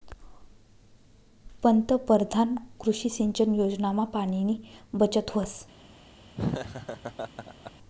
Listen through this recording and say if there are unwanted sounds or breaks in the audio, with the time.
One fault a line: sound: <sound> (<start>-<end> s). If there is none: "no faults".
sound: laugh (6.4-7.7 s)